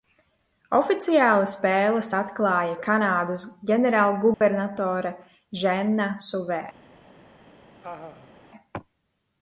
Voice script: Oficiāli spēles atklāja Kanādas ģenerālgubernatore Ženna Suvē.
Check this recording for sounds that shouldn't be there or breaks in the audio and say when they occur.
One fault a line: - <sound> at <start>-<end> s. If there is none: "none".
- dropout at 4.3-4.4 s
- laugh at 7.8-8.3 s